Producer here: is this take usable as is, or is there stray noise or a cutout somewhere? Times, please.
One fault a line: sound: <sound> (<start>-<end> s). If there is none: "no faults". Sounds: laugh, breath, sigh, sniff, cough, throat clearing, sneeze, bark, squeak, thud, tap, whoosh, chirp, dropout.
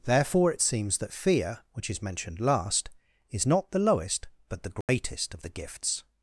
sound: dropout (4.8-4.9 s)